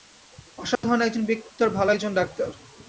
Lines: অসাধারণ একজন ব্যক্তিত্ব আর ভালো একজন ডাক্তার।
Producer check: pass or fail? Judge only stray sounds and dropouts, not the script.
fail